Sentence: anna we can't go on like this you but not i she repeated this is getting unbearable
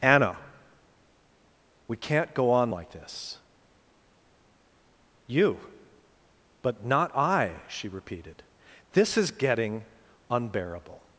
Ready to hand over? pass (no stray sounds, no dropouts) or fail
pass